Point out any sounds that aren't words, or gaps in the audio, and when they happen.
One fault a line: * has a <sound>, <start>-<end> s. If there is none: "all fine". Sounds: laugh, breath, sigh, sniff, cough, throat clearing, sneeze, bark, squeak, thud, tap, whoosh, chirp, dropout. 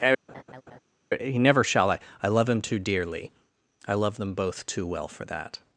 * has a laugh, 0.3-0.8 s